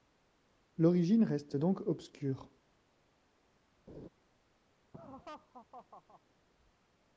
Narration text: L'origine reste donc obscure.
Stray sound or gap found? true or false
true